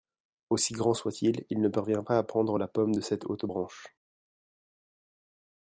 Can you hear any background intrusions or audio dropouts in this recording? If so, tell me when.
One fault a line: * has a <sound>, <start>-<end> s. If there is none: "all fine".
all fine